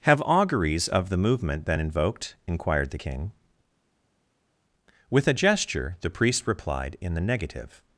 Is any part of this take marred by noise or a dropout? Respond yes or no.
no